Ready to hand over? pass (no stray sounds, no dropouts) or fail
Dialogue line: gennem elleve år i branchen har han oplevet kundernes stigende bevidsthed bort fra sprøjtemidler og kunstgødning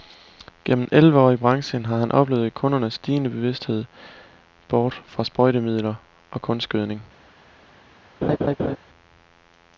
fail